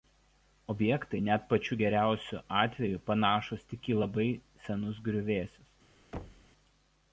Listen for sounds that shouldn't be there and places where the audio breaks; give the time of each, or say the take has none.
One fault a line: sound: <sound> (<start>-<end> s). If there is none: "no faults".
sound: thud (6.1-6.5 s)